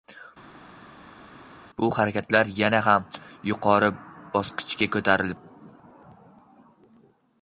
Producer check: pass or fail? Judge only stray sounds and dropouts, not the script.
pass